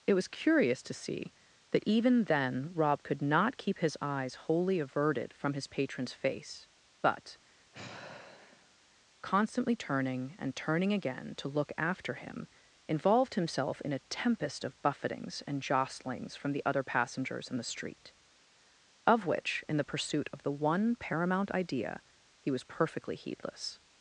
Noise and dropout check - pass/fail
fail